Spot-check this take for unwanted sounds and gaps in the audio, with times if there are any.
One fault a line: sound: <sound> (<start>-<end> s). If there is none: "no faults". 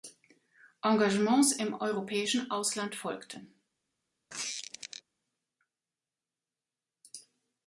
sound: squeak (4.3-5.0 s)